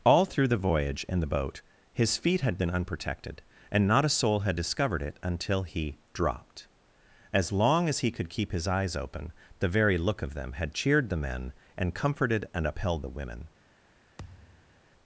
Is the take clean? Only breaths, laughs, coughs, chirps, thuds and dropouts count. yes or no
no